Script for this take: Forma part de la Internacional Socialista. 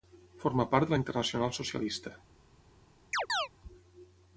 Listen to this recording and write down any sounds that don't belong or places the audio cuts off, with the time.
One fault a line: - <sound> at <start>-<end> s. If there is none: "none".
- chirp at 3.1-3.5 s